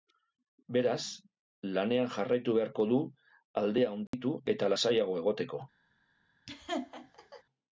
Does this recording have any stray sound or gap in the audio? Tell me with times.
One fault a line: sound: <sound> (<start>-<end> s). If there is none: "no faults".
sound: dropout (4.1-4.1 s)
sound: laugh (6.5-7.4 s)